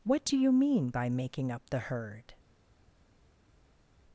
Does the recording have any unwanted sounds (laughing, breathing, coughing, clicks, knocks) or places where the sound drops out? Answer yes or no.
no